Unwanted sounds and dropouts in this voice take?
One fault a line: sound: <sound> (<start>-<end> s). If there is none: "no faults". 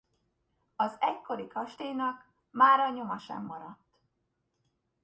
no faults